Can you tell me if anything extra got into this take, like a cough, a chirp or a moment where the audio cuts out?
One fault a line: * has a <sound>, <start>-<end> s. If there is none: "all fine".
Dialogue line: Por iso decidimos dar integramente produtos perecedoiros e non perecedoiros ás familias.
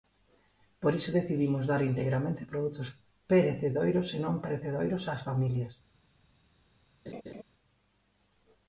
* has a laugh, 7.1-7.4 s